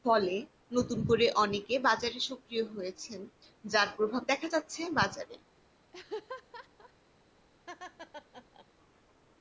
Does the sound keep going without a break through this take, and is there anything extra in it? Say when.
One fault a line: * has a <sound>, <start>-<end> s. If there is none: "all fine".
* has a laugh, 5.9-6.9 s
* has a laugh, 7.7-8.7 s